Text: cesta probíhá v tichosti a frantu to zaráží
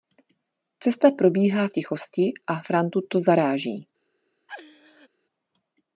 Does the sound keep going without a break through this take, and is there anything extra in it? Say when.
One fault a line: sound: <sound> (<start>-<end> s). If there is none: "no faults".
sound: laugh (4.5-5.1 s)